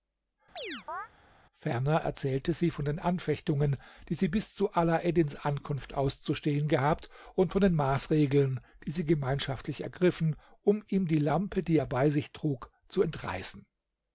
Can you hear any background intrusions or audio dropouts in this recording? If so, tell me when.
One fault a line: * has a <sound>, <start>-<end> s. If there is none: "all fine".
* has a chirp, 0.6-1.1 s